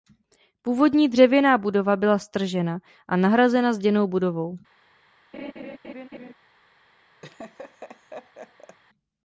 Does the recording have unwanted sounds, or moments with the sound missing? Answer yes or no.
yes